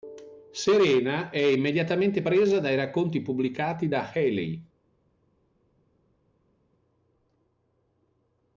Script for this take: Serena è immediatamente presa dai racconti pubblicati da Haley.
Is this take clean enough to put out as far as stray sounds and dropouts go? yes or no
yes